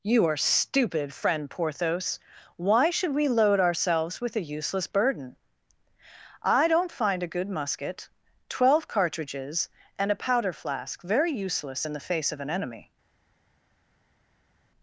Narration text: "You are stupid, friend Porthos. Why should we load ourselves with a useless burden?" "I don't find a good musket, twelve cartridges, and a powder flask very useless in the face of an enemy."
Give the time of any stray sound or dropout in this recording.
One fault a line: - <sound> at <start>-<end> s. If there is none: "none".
none